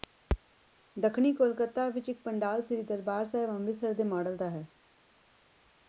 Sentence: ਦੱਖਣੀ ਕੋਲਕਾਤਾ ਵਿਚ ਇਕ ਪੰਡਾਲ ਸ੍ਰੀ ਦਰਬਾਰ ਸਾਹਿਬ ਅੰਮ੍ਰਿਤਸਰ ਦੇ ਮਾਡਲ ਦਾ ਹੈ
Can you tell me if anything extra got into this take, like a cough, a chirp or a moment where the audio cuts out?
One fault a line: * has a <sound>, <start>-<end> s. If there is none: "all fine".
all fine